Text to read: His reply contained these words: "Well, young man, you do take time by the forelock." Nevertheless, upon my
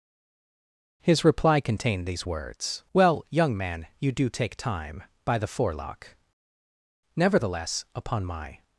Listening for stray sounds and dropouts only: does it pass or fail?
pass